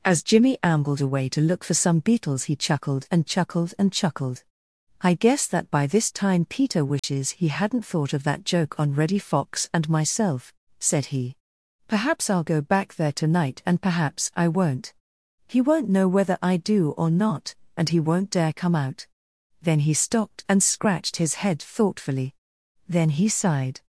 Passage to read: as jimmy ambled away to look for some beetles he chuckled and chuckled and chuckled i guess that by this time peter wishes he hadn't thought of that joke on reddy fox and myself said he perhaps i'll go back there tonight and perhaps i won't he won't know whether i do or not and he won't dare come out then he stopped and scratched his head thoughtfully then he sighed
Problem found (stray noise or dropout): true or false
true